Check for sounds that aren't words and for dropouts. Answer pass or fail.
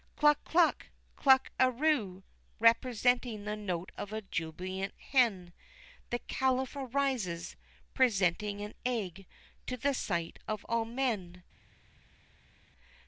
pass